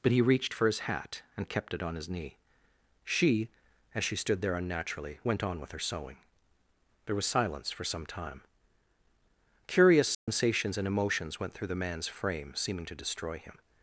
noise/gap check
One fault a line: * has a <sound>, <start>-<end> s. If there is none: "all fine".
* has a dropout, 10.1-10.3 s